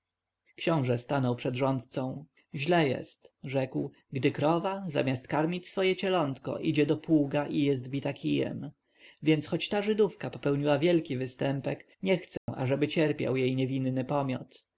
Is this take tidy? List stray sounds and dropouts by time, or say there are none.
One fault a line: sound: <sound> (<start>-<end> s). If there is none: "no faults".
sound: dropout (12.4-12.5 s)